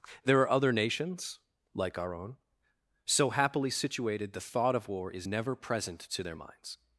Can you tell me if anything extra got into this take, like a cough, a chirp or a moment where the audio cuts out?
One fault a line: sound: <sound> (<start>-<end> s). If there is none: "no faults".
no faults